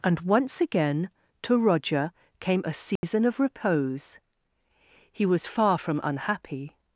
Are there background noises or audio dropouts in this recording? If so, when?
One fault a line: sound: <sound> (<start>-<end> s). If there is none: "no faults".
sound: dropout (3.0-3.0 s)